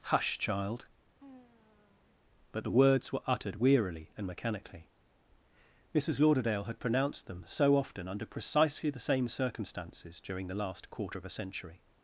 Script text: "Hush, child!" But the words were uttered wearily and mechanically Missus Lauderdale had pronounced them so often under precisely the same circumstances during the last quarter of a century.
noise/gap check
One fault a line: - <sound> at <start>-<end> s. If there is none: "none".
- sigh at 1.2-2.2 s